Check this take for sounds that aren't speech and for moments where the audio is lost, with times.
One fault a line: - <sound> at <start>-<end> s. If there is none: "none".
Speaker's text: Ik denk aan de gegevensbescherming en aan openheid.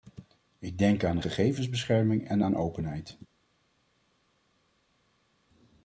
none